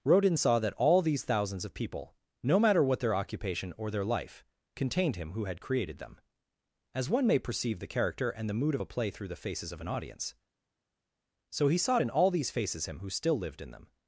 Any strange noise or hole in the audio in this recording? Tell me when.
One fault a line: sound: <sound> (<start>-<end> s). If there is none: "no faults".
no faults